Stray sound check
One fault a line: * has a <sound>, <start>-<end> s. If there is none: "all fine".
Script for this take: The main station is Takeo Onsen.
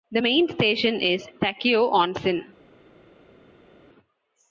all fine